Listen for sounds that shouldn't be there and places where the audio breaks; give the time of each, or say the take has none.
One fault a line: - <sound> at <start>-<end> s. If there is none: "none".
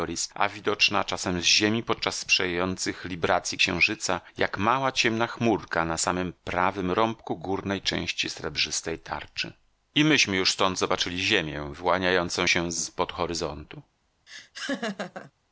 - laugh at 14.3-15.3 s